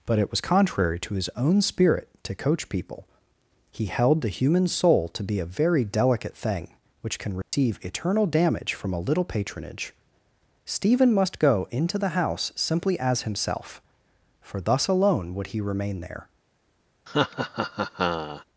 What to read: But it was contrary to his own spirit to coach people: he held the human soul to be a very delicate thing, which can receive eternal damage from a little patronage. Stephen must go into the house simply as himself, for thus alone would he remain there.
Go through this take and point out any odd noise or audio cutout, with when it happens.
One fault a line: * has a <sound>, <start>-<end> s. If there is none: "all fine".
* has a dropout, 7.4-7.5 s
* has a laugh, 17.1-18.4 s